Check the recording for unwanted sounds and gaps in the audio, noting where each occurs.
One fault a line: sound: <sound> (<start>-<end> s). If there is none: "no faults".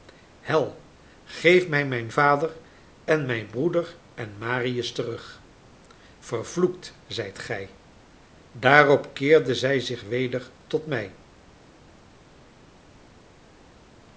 no faults